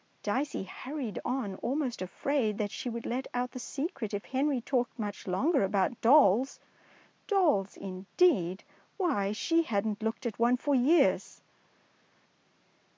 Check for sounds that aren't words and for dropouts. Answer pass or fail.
pass